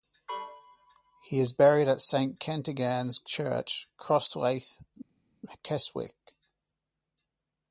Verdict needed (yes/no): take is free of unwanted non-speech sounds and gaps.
yes